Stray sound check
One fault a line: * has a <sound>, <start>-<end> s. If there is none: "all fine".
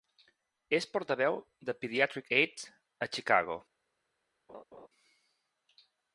* has a laugh, 4.5-4.9 s